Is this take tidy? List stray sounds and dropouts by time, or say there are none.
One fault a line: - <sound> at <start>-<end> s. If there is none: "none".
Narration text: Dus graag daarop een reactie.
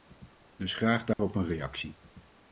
- dropout at 1.1-1.2 s